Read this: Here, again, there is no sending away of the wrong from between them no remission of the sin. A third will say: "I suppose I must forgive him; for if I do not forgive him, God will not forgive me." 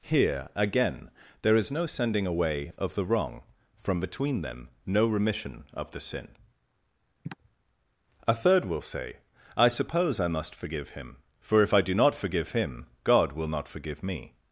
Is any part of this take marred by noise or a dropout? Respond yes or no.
yes